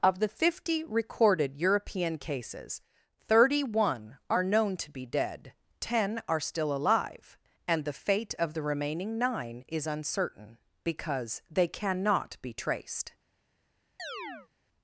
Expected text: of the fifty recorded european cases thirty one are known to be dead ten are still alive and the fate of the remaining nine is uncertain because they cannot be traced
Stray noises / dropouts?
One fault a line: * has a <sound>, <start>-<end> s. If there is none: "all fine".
* has a chirp, 14.0-14.5 s